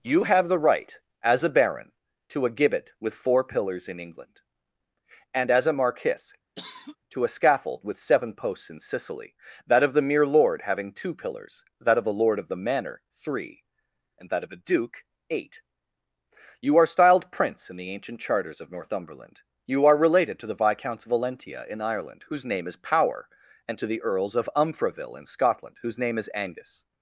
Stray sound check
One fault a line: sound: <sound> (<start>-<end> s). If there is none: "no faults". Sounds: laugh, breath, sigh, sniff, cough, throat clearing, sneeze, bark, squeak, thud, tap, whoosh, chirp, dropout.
sound: cough (6.6-7.0 s)